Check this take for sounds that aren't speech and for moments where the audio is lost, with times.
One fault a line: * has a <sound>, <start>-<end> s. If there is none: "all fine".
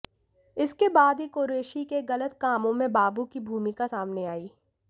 all fine